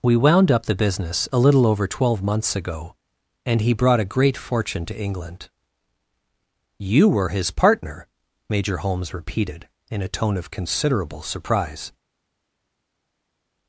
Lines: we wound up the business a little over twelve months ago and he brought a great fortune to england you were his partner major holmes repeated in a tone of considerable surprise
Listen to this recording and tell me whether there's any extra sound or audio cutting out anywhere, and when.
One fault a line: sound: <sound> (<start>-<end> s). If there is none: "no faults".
no faults